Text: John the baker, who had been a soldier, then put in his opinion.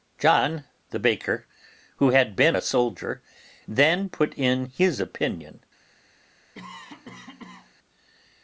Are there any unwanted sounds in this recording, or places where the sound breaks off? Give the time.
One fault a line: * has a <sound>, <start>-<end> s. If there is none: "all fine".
* has a cough, 6.5-7.7 s